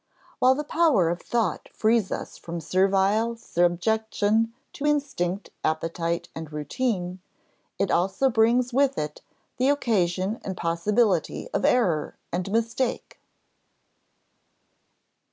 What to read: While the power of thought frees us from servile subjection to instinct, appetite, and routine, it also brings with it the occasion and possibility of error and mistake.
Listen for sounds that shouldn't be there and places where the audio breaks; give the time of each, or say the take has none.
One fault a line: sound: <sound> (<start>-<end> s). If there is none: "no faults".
no faults